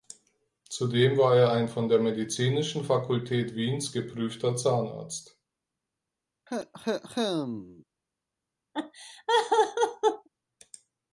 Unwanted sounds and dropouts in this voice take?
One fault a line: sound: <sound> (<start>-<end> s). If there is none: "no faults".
sound: cough (6.5-7.8 s)
sound: laugh (8.7-10.3 s)